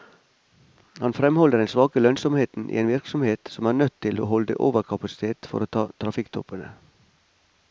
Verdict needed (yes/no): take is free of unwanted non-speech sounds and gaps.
yes